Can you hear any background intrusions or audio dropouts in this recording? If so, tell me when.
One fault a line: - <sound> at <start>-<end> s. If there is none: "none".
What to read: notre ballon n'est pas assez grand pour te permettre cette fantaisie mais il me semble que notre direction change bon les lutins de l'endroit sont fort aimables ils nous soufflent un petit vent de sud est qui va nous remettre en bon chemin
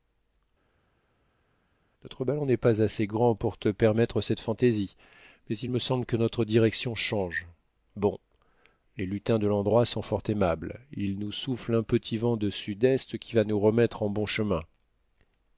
none